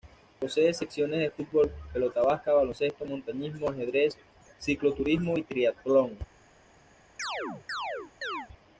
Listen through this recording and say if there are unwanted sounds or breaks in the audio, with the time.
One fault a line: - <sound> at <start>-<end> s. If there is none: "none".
- chirp at 7.2-8.5 s